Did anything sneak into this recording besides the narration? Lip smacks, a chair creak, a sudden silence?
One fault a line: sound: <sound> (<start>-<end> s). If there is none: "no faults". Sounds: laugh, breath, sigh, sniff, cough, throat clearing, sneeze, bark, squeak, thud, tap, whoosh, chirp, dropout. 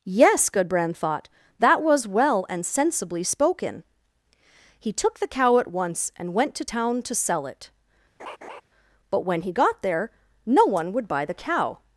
sound: laugh (8.2-8.6 s)